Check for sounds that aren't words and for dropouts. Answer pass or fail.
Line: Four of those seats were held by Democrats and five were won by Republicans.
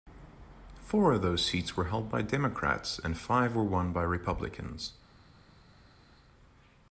pass